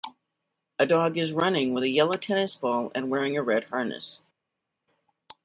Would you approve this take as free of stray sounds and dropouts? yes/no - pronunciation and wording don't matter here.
yes